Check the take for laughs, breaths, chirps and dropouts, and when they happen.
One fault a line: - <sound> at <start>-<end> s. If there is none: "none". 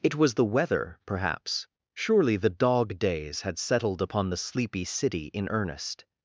none